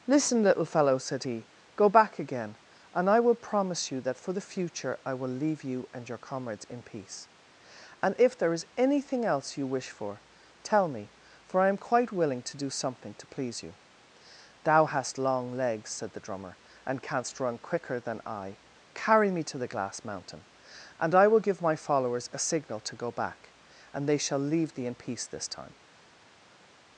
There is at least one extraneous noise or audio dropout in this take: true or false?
false